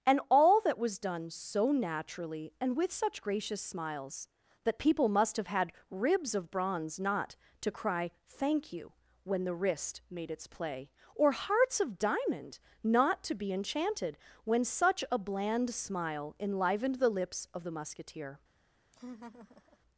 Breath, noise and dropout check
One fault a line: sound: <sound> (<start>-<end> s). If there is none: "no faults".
sound: laugh (18.9-19.8 s)